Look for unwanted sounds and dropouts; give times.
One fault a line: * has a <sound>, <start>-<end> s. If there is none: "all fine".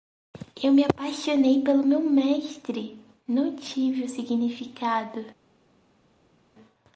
all fine